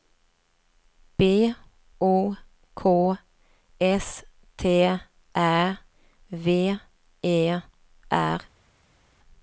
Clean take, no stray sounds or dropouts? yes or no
yes